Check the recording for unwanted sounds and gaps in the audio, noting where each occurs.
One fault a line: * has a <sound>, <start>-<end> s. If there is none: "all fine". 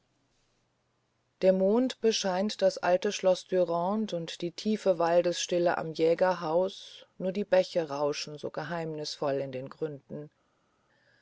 all fine